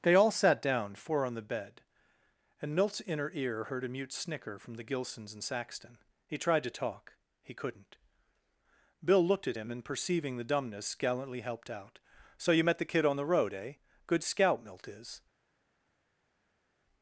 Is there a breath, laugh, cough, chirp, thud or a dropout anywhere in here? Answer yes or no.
no